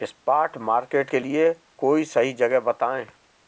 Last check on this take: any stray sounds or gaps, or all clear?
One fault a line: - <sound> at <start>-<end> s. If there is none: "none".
none